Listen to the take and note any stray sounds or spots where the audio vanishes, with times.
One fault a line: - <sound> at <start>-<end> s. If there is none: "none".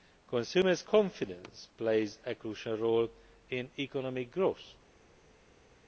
none